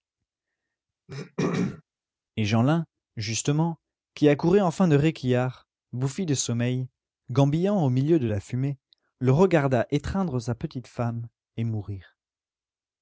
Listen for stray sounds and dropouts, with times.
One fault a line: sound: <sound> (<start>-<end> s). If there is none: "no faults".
sound: throat clearing (1.1-1.8 s)